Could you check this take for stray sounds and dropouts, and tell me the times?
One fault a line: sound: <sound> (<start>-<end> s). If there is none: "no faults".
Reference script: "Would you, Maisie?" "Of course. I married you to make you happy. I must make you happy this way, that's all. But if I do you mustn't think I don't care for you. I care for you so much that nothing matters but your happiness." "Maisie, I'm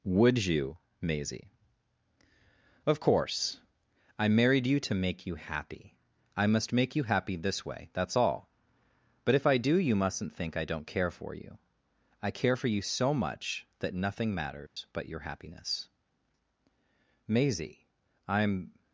sound: dropout (14.7-14.8 s)